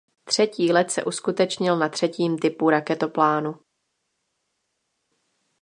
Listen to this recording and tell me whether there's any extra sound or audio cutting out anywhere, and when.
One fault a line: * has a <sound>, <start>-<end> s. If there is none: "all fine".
all fine